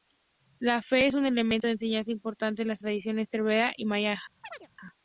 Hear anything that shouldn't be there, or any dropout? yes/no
yes